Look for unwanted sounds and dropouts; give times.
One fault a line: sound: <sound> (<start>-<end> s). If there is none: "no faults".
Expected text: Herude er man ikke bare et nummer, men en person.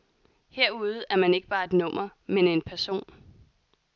no faults